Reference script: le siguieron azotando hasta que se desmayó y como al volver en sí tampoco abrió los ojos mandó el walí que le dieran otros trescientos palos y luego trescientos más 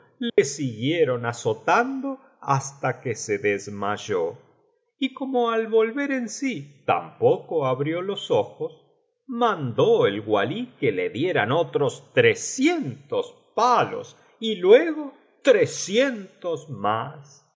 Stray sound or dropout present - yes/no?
yes